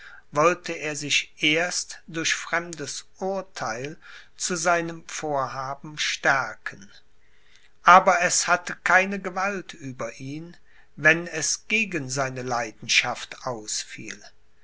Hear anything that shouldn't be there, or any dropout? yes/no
no